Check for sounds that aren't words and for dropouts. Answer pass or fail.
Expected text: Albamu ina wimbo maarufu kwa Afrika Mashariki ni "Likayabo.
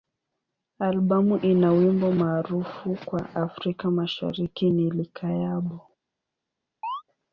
fail